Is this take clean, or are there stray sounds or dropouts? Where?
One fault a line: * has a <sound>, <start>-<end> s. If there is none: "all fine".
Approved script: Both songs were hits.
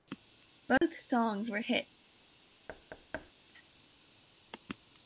* has a dropout, 0.8-0.8 s
* has a thud, 2.7-3.3 s